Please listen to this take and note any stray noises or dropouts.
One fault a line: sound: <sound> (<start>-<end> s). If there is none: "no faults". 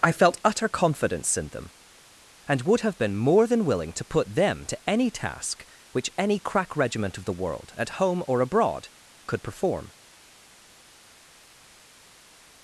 no faults